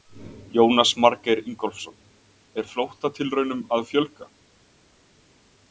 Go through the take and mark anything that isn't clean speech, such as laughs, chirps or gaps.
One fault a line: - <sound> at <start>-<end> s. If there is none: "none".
none